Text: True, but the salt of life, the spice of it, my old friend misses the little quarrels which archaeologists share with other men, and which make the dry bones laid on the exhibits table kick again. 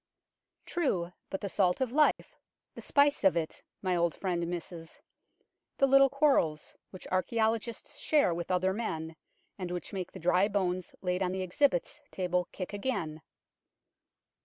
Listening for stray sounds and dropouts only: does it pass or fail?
fail